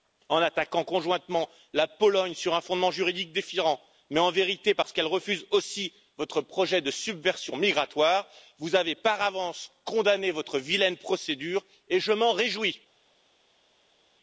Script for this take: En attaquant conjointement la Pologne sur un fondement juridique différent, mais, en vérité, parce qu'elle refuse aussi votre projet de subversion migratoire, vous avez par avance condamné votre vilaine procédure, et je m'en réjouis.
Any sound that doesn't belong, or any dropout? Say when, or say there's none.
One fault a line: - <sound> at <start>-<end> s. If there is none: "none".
none